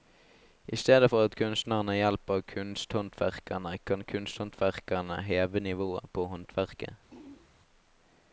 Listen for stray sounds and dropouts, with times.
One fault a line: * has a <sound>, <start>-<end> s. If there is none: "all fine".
* has a throat clearing, 7.1-7.5 s